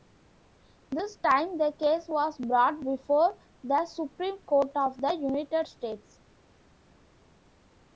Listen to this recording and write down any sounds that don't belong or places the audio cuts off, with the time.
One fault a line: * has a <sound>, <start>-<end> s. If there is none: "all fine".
all fine